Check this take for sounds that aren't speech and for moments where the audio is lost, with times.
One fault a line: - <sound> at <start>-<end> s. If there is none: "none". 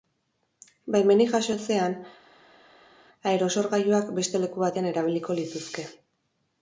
none